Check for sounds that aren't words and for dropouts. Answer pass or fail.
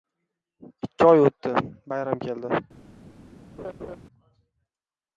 fail